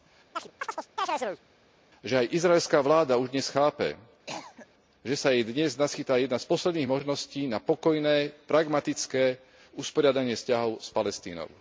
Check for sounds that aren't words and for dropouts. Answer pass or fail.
fail